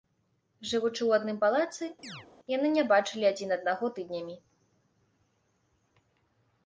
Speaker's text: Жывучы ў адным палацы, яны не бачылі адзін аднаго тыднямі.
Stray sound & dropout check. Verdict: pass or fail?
fail